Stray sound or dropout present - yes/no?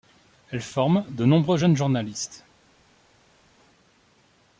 no